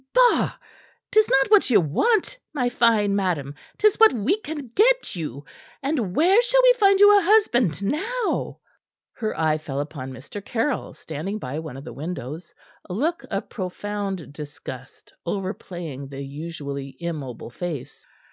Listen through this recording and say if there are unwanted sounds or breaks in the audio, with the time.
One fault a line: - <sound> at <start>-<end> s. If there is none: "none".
none